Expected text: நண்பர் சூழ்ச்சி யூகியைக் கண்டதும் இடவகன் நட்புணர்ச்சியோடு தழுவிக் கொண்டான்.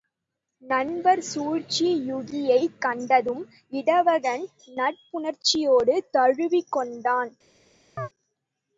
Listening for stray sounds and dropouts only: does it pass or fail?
fail